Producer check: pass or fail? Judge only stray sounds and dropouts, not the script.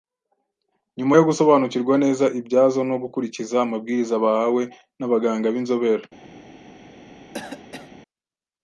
fail